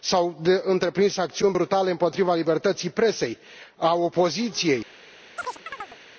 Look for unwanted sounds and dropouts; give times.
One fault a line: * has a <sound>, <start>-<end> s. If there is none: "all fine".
* has a chirp, 5.4-6.0 s